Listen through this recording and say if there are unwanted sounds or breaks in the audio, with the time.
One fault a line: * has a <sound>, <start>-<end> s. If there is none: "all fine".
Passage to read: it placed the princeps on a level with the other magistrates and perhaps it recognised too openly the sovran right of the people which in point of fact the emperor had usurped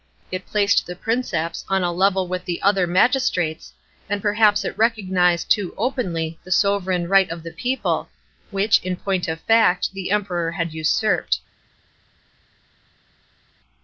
all fine